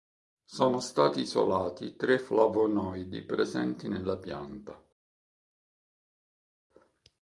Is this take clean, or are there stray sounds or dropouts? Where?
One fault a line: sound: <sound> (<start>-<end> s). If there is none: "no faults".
no faults